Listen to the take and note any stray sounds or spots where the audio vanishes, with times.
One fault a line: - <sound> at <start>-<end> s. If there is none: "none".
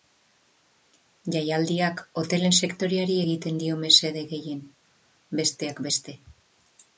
none